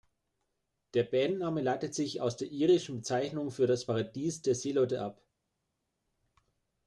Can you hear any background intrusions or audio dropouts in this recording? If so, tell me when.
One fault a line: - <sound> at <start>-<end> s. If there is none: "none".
none